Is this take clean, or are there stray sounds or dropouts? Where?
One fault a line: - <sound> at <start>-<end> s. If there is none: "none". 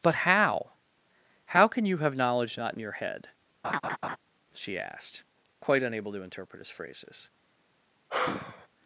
- laugh at 3.6-4.2 s
- sigh at 8.1-8.7 s